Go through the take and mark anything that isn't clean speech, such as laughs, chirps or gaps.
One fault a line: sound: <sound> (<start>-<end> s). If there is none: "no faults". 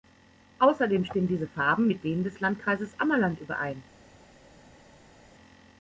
no faults